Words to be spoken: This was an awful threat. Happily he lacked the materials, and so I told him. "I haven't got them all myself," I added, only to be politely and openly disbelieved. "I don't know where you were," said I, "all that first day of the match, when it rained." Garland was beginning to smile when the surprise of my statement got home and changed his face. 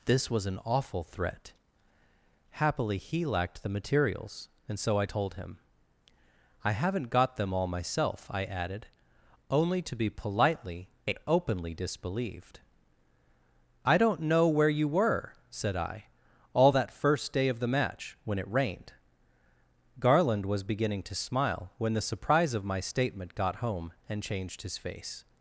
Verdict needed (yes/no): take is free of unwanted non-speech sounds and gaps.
yes